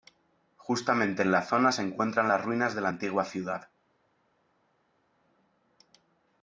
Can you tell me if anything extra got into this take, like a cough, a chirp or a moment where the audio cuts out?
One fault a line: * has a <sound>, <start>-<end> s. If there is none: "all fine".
all fine